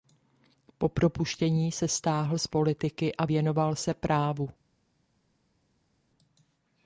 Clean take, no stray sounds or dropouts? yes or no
yes